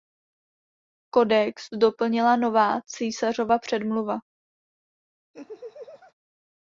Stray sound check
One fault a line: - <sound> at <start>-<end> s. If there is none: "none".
- laugh at 5.3-6.1 s